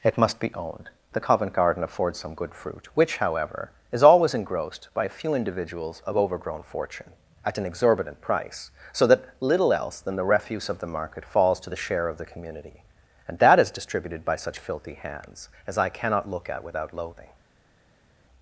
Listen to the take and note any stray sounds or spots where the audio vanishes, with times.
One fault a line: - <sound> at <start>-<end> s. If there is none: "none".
none